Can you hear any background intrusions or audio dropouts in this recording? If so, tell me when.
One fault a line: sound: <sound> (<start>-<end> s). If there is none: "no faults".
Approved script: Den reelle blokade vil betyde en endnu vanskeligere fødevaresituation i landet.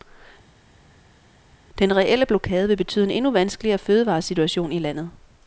no faults